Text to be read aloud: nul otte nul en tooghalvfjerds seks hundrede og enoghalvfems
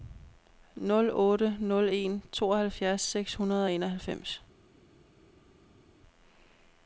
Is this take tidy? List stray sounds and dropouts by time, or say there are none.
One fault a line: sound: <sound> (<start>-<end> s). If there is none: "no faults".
no faults